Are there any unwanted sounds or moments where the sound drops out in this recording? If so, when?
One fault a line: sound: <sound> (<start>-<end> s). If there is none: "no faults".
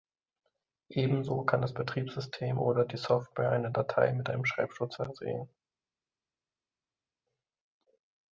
no faults